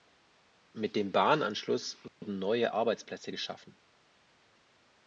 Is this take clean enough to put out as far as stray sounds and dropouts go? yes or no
no